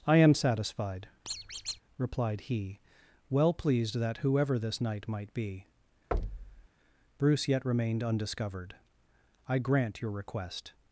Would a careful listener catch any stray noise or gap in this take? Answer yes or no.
yes